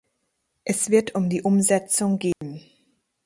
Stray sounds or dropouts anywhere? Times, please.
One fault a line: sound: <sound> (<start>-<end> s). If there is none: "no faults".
sound: dropout (2.3-2.4 s)